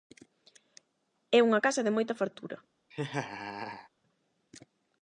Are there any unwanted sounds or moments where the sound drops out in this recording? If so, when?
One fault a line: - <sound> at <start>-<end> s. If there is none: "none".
- laugh at 2.9-3.9 s